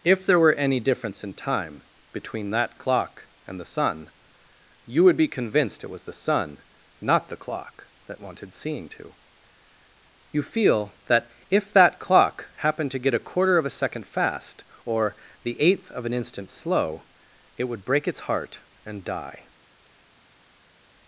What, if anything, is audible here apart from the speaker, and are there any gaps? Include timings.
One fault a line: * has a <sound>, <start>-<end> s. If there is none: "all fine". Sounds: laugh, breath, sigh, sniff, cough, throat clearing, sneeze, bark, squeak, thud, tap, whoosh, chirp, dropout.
all fine